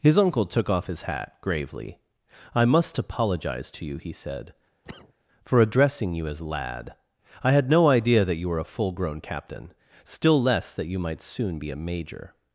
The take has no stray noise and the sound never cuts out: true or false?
false